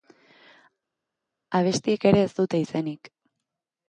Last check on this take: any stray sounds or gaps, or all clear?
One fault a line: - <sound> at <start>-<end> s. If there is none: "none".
none